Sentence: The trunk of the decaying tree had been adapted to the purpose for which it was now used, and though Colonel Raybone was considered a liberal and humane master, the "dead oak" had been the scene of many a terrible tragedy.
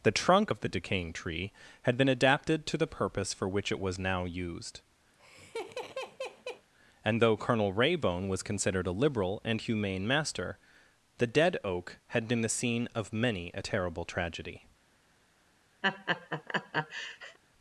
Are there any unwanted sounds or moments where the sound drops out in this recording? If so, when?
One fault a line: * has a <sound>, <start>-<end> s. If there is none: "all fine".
* has a laugh, 5.1-6.7 s
* has a laugh, 15.8-17.4 s